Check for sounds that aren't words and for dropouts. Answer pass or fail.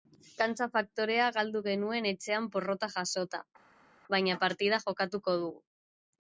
pass